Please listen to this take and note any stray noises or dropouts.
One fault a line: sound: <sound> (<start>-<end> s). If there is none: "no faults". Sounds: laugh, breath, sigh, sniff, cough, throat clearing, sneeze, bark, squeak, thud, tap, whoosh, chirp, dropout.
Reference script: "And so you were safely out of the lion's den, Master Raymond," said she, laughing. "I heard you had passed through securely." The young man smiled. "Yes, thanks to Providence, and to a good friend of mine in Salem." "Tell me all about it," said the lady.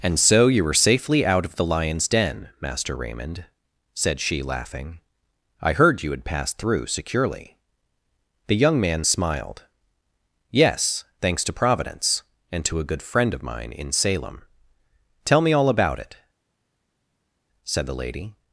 no faults